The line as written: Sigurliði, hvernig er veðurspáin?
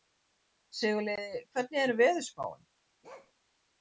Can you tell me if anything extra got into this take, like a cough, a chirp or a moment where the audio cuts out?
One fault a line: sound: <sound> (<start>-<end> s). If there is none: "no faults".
sound: bark (3.0-3.3 s)